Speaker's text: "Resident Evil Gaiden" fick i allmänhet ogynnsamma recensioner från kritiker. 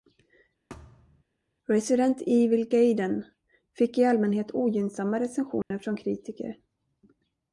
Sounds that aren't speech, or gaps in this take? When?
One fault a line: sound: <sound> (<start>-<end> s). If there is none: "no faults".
sound: thud (0.7-1.2 s)
sound: dropout (5.6-5.7 s)